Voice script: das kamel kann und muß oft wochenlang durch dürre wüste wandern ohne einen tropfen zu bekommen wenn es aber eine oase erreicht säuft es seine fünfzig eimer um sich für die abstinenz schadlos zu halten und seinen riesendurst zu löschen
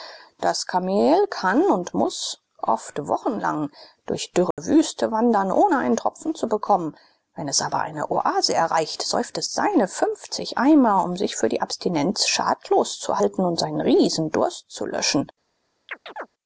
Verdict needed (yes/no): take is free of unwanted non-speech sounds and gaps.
no